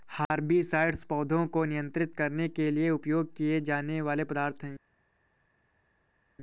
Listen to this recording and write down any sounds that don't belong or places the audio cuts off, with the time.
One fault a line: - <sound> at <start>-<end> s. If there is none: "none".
none